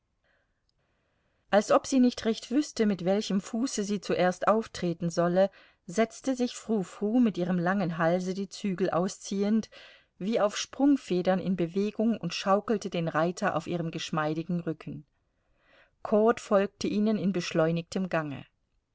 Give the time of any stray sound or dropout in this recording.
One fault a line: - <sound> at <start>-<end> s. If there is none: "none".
none